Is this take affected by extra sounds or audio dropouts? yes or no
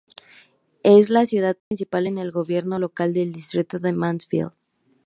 yes